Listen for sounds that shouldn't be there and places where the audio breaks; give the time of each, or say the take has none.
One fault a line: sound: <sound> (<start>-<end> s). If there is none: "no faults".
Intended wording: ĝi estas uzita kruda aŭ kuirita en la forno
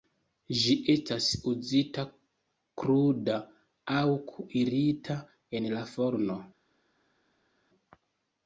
no faults